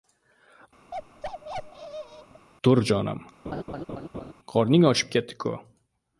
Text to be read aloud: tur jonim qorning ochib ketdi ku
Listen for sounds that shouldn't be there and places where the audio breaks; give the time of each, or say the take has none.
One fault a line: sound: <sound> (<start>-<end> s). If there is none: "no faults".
sound: bark (0.9-2.5 s)
sound: laugh (3.4-4.3 s)